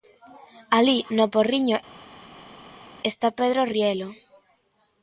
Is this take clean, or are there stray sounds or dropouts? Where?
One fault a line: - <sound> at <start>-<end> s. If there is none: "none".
none